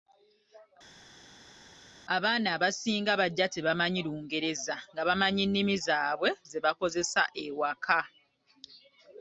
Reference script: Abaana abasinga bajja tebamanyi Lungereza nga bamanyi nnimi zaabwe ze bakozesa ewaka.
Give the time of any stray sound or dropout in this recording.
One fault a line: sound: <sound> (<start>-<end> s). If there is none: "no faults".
no faults